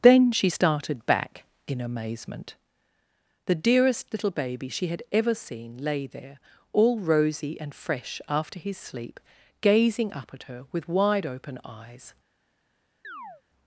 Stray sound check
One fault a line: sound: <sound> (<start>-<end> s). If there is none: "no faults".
sound: chirp (13.0-13.4 s)